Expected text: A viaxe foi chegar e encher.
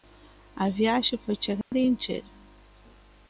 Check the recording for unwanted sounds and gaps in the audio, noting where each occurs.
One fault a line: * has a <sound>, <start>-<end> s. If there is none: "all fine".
* has a dropout, 1.6-1.7 s